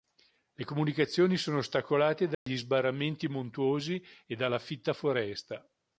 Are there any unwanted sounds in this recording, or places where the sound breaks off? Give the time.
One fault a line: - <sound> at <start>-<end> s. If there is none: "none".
- dropout at 2.3-2.5 s